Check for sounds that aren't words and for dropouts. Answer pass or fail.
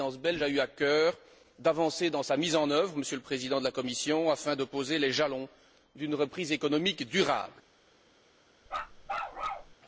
fail